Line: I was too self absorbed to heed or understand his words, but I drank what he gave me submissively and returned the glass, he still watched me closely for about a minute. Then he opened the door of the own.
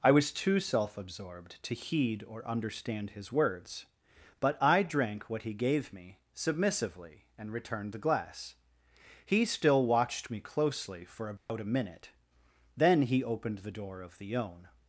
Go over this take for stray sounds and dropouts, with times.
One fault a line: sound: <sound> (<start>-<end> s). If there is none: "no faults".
sound: dropout (11.4-11.5 s)